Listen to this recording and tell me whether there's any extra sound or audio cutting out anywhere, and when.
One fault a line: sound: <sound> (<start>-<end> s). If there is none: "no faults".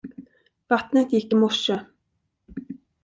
no faults